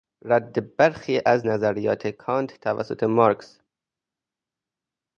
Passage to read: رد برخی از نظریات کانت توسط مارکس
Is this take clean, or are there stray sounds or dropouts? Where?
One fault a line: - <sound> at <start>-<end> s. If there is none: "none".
none